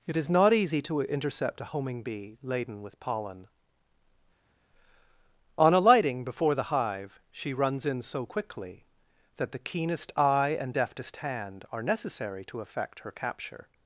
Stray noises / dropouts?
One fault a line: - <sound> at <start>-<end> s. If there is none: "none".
none